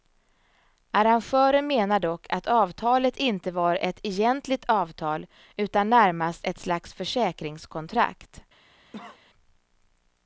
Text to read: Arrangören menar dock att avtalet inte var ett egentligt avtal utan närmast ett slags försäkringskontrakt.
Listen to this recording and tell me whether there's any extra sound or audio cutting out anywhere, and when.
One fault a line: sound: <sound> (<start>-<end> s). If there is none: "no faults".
sound: cough (8.9-9.2 s)